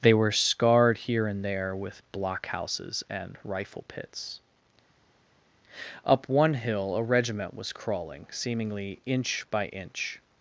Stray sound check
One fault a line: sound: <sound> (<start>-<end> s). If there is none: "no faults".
no faults